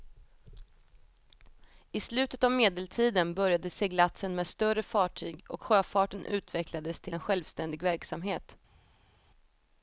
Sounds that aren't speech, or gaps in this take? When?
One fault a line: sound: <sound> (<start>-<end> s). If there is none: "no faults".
no faults